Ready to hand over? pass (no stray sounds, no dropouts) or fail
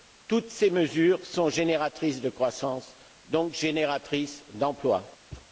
fail